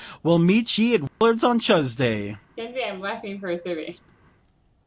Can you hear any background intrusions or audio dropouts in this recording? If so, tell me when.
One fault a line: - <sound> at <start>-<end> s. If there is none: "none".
- dropout at 1.1-1.2 s
- laugh at 2.6-4.1 s